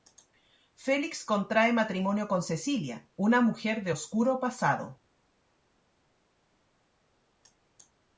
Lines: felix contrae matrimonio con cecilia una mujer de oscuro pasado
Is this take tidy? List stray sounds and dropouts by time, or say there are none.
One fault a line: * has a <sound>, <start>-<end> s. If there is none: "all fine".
all fine